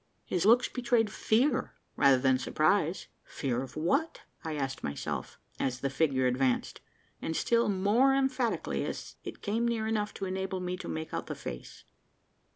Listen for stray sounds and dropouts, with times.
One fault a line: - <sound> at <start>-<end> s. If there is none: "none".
none